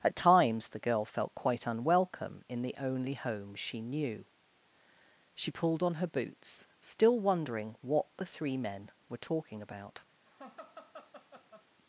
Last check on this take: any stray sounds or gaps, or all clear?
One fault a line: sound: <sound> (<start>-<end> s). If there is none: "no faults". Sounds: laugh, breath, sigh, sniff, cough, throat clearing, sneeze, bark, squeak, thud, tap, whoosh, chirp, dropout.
sound: laugh (10.3-11.7 s)